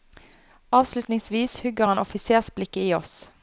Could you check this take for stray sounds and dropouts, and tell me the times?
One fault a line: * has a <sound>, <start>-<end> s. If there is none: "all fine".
all fine